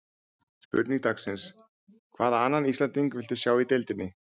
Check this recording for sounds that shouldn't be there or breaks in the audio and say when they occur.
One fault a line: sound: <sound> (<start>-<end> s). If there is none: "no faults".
no faults